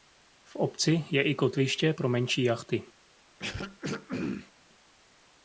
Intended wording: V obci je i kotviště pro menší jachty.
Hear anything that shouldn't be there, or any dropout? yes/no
yes